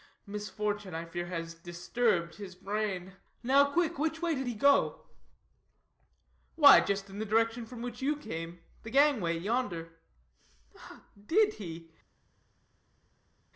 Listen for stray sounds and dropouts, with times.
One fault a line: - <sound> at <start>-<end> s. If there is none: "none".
none